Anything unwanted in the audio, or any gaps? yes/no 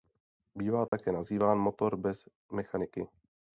yes